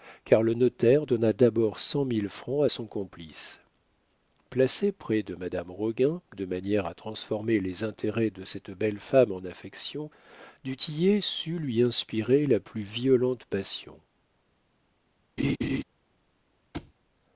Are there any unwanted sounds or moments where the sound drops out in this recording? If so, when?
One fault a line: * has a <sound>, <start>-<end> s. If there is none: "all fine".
* has a laugh, 15.4-15.8 s
* has a thud, 16.7-16.9 s